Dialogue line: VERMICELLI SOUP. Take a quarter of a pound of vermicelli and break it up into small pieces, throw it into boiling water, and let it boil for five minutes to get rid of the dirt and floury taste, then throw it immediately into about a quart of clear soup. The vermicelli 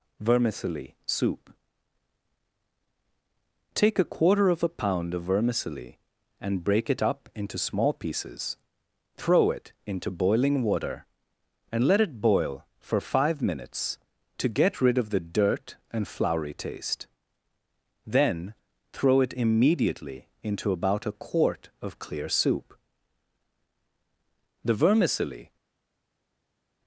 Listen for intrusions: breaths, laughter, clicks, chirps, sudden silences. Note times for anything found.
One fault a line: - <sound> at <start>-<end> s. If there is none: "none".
none